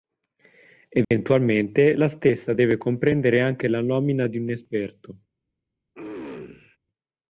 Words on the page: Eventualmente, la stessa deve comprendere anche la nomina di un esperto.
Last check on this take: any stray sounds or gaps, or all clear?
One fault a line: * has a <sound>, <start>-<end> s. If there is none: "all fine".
* has a dropout, 1.0-1.1 s
* has a throat clearing, 5.9-6.8 s